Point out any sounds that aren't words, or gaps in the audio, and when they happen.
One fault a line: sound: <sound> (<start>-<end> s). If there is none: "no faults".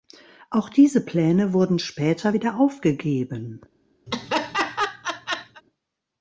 sound: laugh (4.1-5.6 s)